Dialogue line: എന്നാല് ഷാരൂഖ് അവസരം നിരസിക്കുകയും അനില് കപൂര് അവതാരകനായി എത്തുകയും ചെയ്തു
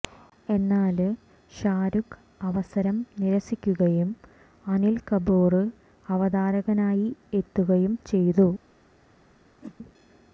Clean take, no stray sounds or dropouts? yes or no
no